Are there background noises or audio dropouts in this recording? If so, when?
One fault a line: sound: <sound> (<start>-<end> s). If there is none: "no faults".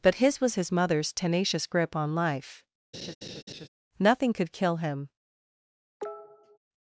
sound: laugh (2.9-3.7 s)
sound: cough (6.0-6.6 s)